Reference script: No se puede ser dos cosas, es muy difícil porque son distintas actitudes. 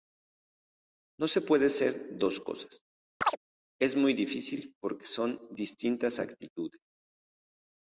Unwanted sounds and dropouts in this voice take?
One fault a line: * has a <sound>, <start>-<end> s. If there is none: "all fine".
* has a chirp, 3.2-3.4 s